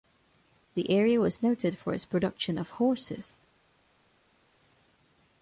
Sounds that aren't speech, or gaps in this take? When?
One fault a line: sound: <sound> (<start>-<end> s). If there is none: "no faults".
no faults